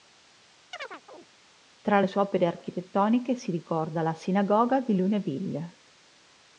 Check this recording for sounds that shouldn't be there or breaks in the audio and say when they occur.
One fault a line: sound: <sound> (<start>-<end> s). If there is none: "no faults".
sound: chirp (0.7-1.3 s)